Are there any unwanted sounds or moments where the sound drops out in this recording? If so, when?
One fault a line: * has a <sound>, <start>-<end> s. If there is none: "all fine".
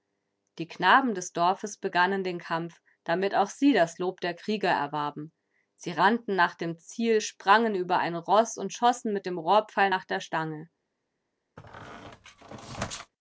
* has a squeak, 11.6-13.1 s